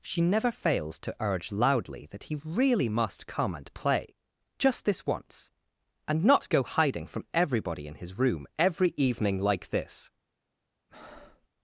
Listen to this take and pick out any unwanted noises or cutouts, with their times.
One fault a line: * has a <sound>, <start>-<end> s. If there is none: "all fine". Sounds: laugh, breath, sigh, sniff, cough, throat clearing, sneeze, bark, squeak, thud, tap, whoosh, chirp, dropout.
* has a breath, 10.9-11.5 s